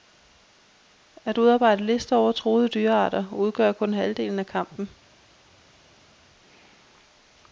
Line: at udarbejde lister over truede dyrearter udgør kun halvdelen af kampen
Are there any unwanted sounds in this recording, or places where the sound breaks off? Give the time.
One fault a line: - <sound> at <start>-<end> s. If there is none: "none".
none